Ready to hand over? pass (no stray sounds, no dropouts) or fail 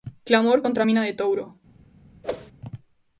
fail